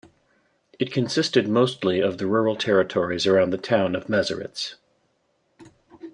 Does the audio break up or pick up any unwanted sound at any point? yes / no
no